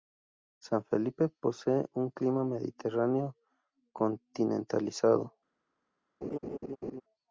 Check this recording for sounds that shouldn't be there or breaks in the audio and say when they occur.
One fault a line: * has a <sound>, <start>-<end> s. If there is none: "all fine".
* has a laugh, 6.2-7.0 s